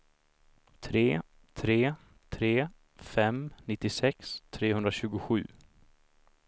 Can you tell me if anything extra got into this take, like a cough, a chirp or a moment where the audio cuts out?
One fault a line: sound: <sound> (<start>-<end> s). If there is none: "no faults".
no faults